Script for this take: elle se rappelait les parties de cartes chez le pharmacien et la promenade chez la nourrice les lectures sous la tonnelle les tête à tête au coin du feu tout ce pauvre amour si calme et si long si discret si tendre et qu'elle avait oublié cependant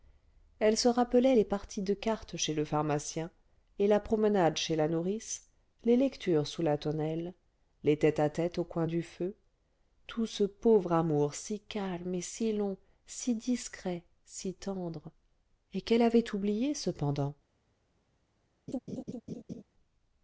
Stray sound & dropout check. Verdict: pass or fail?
fail